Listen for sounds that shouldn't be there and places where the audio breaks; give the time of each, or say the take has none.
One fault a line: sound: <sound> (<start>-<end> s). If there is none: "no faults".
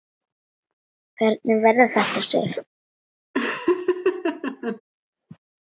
sound: laugh (3.3-4.8 s)